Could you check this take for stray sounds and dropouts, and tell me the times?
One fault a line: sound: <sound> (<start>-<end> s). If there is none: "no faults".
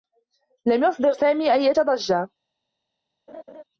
sound: laugh (3.3-3.6 s)